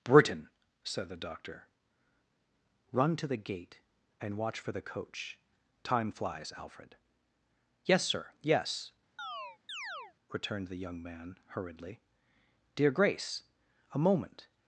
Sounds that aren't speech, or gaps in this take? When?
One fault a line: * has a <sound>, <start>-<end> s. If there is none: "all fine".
* has a chirp, 9.2-10.1 s